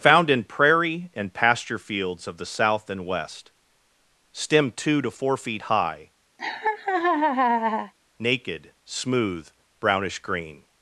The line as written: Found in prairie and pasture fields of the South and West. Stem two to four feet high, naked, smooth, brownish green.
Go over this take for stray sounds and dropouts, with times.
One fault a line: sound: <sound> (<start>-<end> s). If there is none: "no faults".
sound: laugh (6.4-7.9 s)